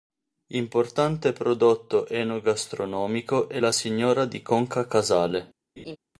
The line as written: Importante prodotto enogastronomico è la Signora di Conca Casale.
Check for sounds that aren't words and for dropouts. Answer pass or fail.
fail